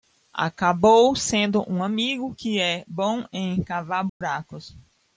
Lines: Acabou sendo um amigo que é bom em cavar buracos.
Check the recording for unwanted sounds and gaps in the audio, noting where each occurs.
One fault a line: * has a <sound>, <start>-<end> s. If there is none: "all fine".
* has a dropout, 4.1-4.2 s